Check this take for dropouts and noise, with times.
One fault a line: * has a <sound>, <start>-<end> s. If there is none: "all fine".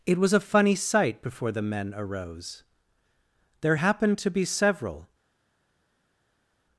all fine